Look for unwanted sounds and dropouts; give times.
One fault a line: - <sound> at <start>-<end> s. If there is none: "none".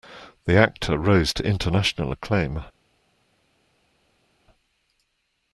none